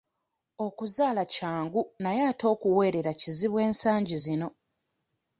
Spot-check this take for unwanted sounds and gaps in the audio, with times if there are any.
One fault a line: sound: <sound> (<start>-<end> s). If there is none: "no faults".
no faults